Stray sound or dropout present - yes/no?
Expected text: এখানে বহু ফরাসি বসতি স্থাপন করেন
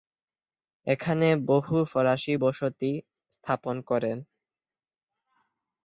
no